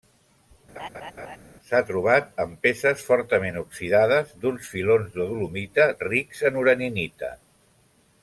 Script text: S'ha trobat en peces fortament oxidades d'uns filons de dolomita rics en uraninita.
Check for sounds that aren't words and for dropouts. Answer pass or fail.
fail